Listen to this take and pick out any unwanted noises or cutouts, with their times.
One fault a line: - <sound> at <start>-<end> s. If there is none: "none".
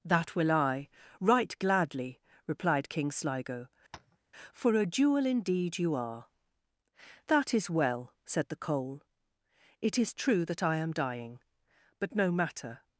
- tap at 3.9-4.2 s